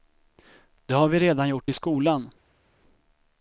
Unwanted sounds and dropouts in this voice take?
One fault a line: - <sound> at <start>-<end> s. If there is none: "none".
none